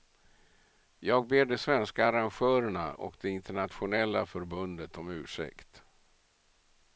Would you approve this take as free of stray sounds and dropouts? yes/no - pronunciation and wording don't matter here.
yes